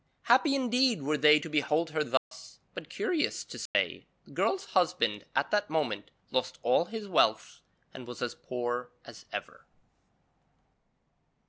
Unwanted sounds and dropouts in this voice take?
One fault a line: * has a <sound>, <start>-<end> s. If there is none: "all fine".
* has a dropout, 2.2-2.3 s
* has a dropout, 3.7-3.7 s